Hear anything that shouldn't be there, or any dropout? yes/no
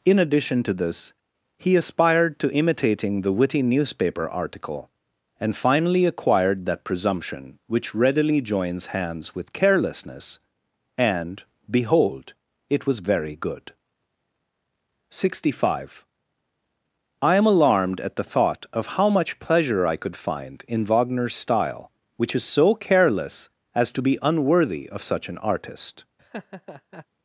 yes